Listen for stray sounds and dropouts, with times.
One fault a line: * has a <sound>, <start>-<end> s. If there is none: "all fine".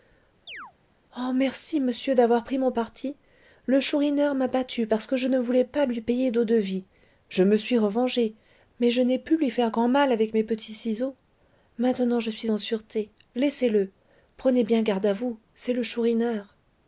* has a chirp, 0.5-0.7 s